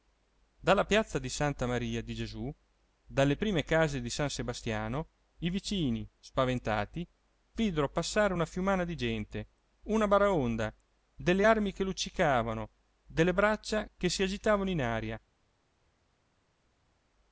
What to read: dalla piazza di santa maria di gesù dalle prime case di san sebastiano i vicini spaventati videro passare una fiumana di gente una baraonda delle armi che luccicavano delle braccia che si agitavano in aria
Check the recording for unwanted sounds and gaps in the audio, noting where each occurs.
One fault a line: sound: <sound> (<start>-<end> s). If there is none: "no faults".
no faults